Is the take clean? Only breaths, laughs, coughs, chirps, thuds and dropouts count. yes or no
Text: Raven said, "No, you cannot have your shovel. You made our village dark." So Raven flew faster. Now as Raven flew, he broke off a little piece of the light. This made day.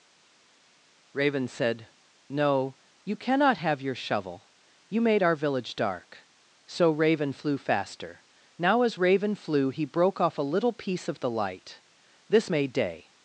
yes